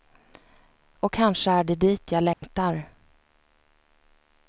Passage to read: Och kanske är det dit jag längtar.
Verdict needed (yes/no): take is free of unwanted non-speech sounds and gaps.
no